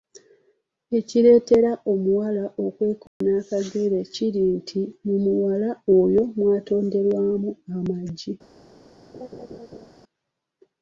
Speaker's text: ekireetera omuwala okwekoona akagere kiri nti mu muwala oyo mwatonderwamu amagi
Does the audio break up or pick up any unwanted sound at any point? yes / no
yes